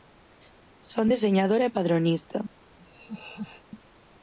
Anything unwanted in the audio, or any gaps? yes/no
yes